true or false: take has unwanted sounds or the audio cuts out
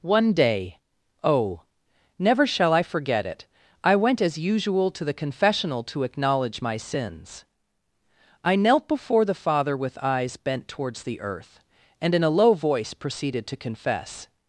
false